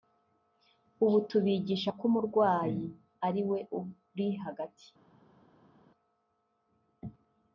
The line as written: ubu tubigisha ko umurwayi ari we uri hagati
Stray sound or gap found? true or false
false